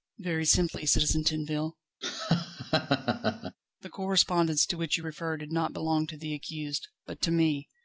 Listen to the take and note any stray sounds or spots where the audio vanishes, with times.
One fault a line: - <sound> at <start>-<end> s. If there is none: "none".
- laugh at 2.0-3.6 s